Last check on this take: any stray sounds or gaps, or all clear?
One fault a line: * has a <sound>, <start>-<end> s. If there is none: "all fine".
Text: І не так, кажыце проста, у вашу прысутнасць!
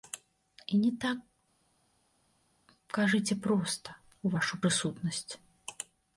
all fine